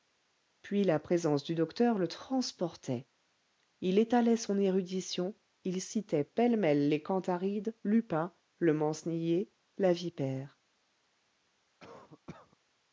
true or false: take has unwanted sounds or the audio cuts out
true